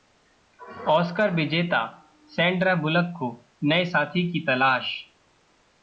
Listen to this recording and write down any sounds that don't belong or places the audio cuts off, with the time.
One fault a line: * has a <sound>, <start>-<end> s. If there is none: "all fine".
all fine